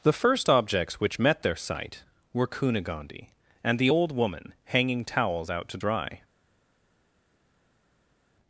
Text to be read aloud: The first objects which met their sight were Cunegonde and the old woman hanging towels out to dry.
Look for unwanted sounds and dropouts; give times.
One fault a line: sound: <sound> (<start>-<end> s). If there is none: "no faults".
no faults